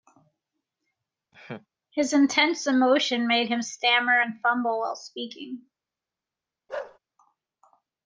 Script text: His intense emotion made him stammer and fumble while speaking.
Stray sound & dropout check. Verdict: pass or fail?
fail